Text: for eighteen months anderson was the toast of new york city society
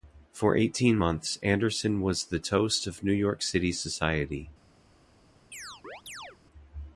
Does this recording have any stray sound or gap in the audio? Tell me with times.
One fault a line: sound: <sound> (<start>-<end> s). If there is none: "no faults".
sound: chirp (5.5-6.4 s)